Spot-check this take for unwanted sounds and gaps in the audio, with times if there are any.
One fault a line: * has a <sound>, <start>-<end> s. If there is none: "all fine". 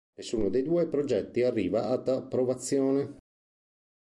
all fine